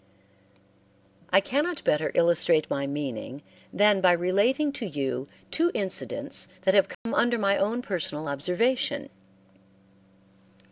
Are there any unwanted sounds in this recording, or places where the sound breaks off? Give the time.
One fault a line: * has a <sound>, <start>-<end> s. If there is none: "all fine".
* has a dropout, 6.9-7.1 s